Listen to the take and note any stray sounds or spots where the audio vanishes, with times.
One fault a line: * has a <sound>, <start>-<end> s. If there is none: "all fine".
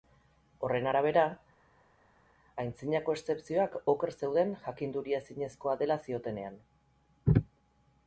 all fine